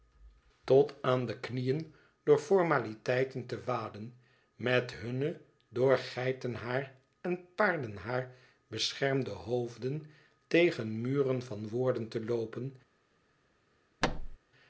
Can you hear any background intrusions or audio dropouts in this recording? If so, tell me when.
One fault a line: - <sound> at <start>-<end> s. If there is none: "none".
- thud at 14.0-14.4 s